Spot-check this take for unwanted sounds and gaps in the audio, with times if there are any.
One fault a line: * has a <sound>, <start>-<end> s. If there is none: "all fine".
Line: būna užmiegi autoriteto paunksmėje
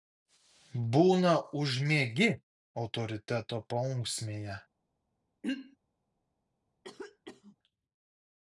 * has a throat clearing, 5.4-5.8 s
* has a cough, 6.8-7.6 s